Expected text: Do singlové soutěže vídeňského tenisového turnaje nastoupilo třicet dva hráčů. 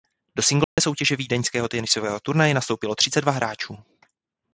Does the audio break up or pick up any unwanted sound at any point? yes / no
yes